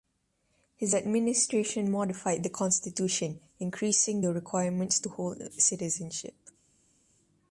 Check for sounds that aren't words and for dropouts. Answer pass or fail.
pass